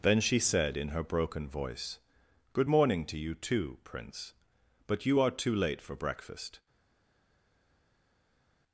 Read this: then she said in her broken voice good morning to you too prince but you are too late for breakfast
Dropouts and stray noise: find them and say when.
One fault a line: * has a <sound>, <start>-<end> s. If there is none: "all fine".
all fine